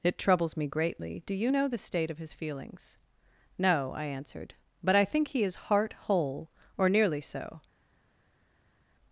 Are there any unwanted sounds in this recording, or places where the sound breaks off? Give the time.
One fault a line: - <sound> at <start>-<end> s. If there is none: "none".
none